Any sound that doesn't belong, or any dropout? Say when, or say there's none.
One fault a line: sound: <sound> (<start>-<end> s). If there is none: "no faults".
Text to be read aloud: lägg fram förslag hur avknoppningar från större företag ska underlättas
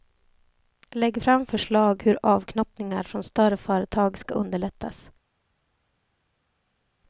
no faults